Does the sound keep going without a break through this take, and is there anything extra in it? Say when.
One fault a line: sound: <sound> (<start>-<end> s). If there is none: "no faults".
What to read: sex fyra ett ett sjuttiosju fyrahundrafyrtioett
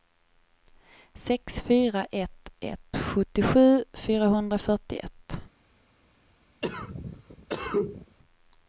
sound: cough (6.6-8.2 s)